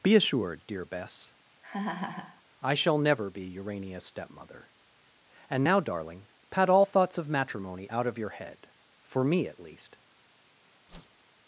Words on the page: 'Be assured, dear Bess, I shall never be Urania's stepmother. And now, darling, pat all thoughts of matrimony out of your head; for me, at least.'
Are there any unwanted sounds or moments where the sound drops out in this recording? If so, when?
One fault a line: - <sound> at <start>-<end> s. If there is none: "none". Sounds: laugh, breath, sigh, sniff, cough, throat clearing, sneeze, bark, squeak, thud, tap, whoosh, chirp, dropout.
- laugh at 1.6-2.4 s
- whoosh at 10.9-11.2 s